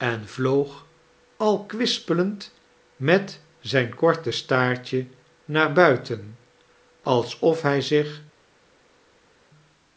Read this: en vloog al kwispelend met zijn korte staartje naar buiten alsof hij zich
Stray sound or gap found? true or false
false